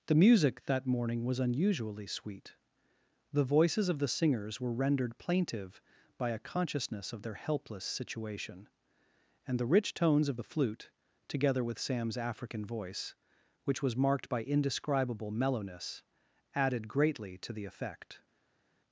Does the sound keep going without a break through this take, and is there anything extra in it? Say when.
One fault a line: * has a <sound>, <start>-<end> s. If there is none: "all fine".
all fine